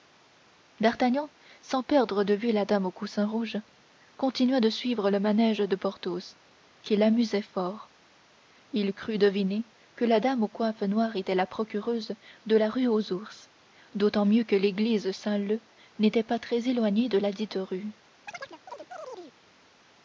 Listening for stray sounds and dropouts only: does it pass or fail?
fail